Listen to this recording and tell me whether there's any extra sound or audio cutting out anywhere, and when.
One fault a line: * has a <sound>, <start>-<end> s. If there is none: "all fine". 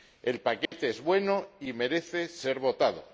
* has a dropout, 0.7-0.7 s